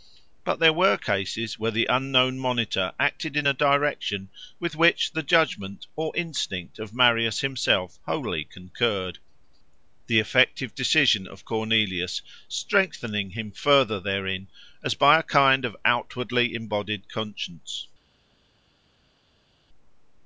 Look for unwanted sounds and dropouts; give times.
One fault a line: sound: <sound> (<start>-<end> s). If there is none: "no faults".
no faults